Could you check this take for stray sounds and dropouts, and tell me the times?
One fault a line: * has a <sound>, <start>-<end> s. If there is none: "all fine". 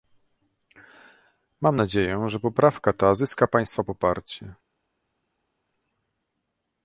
all fine